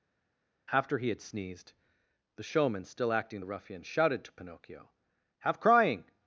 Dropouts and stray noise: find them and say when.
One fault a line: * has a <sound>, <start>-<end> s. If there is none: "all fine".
all fine